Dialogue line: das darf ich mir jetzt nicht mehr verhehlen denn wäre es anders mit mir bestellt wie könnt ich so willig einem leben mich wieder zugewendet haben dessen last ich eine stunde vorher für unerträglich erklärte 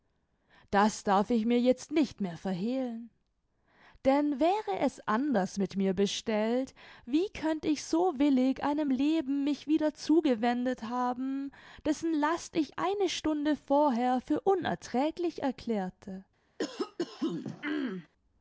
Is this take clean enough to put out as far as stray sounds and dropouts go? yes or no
no